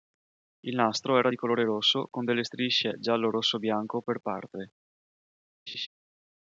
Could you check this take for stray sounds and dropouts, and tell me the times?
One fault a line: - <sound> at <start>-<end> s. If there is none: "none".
- laugh at 5.7-5.9 s